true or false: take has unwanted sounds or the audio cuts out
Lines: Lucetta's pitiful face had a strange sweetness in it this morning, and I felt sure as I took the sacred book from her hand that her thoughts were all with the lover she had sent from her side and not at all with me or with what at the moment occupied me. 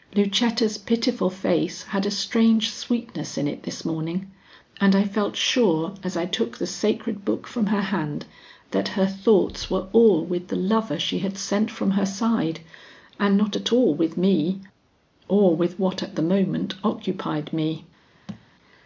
true